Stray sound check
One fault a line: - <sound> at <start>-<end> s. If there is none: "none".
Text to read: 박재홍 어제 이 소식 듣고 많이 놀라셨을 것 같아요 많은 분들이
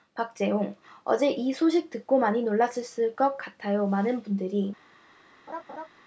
- laugh at 5.5-5.9 s